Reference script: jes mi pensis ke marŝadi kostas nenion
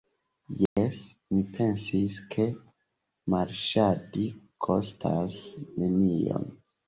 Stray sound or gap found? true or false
true